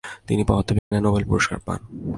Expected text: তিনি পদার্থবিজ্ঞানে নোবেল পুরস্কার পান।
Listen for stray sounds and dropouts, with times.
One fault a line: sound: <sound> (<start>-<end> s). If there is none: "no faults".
sound: dropout (0.8-0.9 s)